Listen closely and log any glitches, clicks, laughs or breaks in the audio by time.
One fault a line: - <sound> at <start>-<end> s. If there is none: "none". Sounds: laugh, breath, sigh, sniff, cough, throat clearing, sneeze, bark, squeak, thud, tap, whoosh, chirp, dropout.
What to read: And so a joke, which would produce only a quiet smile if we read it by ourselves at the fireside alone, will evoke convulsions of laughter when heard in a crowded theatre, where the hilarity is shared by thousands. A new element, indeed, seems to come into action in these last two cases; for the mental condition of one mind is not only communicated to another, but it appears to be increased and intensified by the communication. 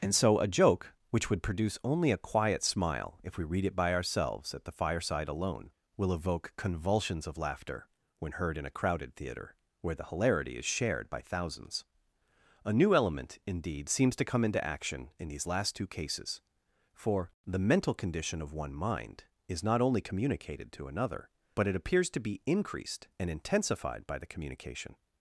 none